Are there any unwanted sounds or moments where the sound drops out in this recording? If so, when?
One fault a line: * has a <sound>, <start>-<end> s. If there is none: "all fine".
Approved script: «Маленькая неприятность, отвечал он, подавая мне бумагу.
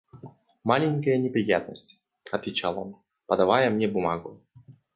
all fine